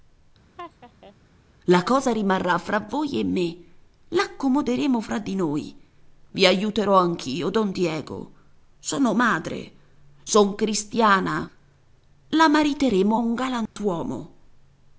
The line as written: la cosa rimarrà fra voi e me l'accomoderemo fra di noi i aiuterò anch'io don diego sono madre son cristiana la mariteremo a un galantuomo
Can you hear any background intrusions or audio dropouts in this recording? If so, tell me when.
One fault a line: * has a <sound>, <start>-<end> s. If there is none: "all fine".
* has a laugh, 0.6-1.2 s
* has a dropout, 13.7-13.8 s